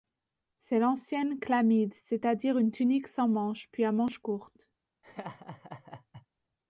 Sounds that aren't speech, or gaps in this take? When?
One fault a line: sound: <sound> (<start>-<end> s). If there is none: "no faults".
sound: laugh (5.0-6.3 s)